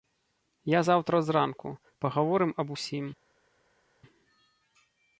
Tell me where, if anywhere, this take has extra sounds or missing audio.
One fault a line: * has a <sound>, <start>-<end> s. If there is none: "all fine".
all fine